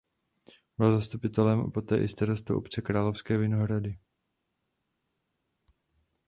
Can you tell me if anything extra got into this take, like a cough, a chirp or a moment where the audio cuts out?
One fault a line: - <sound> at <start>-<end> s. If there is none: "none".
none